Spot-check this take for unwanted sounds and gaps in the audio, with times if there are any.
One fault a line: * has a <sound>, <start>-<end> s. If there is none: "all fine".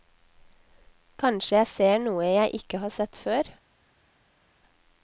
all fine